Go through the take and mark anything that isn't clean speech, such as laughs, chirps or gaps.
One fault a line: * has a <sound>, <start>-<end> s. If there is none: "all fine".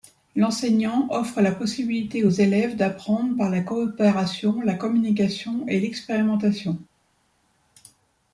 all fine